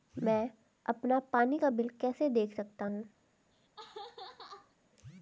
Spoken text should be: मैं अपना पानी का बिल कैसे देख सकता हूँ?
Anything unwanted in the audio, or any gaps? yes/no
yes